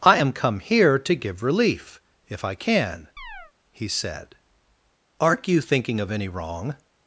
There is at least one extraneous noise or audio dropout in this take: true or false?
true